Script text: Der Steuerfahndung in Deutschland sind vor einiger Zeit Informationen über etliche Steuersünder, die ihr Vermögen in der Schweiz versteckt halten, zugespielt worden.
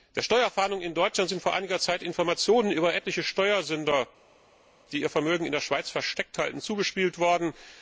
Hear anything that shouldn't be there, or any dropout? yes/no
no